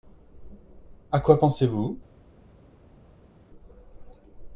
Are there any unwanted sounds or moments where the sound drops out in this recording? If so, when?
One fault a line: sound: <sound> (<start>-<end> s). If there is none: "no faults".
no faults